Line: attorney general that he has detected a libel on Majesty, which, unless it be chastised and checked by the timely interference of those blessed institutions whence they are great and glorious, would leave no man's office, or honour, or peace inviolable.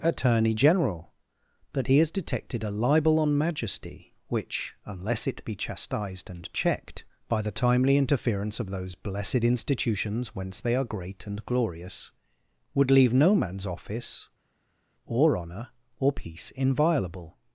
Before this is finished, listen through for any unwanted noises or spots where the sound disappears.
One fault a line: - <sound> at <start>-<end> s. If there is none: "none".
none